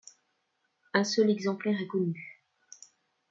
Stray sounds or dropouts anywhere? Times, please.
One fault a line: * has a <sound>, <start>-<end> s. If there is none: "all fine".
all fine